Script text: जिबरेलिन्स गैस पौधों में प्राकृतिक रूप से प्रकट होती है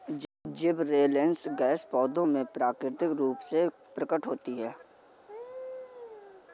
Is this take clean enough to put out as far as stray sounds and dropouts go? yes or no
no